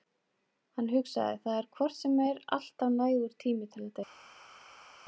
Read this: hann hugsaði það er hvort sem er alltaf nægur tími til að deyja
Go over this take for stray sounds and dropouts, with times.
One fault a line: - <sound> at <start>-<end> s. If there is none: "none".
none